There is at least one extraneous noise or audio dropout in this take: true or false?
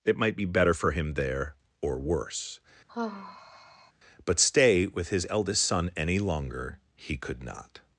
true